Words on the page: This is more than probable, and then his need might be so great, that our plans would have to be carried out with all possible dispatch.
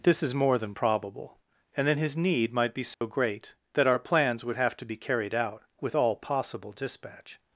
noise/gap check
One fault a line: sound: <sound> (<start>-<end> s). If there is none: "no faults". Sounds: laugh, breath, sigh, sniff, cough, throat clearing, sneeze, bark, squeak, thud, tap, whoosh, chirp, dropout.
sound: dropout (2.9-3.0 s)